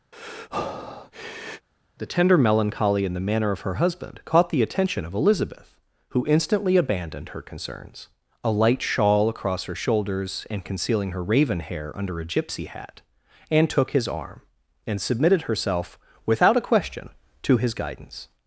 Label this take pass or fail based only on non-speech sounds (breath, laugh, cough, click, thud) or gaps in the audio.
fail